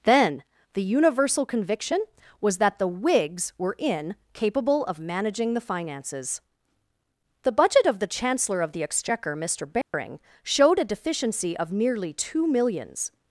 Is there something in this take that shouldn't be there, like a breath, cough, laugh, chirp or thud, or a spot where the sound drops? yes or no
yes